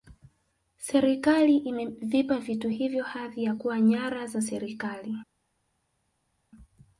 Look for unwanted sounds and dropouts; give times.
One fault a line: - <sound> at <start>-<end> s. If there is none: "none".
none